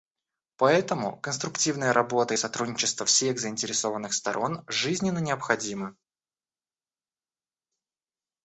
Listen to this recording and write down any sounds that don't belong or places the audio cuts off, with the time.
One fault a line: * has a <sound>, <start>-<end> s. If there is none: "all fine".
all fine